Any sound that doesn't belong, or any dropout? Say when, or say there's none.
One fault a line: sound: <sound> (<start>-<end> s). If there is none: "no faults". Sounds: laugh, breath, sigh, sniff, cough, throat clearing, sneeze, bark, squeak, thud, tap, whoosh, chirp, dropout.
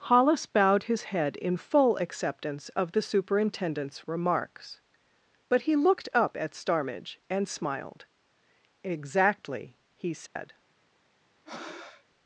sound: dropout (10.3-10.4 s)
sound: breath (11.4-12.0 s)